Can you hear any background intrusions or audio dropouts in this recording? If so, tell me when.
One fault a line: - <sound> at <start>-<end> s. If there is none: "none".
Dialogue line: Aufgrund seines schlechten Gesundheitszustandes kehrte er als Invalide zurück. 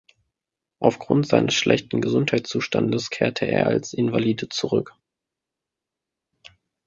none